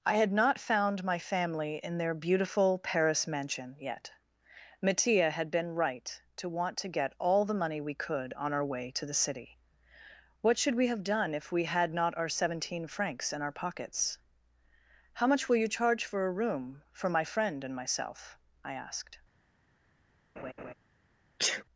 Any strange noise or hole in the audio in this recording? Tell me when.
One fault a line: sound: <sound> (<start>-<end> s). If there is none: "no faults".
sound: laugh (20.4-20.7 s)
sound: sneeze (21.4-21.6 s)